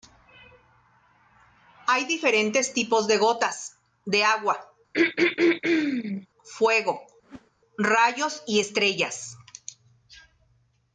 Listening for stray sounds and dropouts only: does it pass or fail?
fail